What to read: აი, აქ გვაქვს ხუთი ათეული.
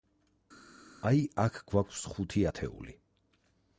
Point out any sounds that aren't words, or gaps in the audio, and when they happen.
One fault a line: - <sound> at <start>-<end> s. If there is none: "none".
none